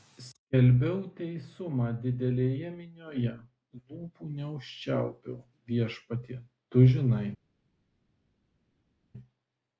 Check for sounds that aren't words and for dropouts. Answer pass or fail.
pass